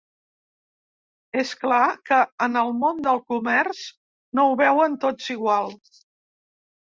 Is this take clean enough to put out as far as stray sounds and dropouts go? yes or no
yes